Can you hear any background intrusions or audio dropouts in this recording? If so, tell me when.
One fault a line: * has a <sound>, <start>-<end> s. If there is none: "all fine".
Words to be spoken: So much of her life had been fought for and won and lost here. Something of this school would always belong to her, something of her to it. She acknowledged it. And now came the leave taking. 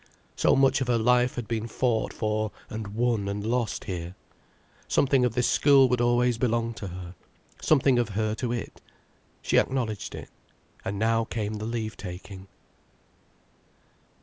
all fine